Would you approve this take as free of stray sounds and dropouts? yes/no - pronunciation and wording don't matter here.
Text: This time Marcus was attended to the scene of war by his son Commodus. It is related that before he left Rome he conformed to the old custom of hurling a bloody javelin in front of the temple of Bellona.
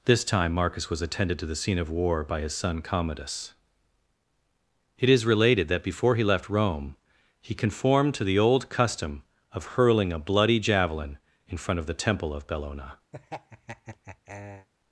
no